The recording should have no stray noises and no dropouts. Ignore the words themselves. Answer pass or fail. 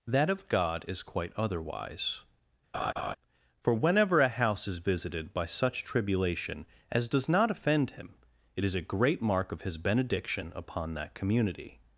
fail